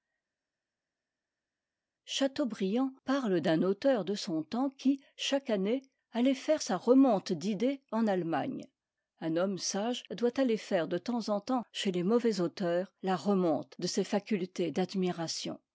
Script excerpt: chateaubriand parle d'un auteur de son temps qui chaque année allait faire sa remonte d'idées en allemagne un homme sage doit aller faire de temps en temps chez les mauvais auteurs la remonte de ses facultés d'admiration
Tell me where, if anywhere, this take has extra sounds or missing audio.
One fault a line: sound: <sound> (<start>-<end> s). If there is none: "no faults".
no faults